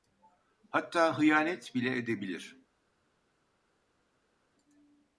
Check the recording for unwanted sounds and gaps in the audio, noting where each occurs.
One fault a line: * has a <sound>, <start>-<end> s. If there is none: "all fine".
all fine